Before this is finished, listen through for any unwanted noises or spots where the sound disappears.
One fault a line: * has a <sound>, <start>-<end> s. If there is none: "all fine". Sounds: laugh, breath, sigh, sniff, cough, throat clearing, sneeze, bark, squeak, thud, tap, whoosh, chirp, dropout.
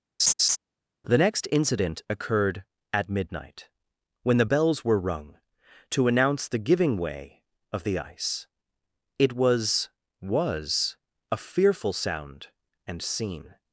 * has a laugh, 0.2-0.6 s